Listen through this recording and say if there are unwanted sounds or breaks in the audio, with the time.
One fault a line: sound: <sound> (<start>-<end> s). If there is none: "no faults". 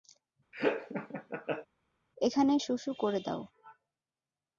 sound: laugh (0.5-1.7 s)